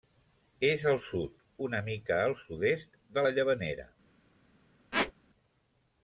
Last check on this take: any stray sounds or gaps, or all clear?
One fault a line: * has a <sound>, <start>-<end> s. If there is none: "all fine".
* has a squeak, 4.9-5.1 s